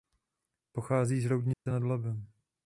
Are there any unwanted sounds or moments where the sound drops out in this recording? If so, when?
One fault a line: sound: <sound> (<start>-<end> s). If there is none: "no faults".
sound: dropout (1.5-1.7 s)